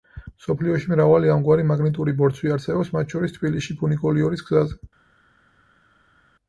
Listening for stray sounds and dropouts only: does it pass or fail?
pass